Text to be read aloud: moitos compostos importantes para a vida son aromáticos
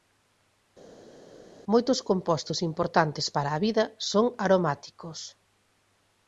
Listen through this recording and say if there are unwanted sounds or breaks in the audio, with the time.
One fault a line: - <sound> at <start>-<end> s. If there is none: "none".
none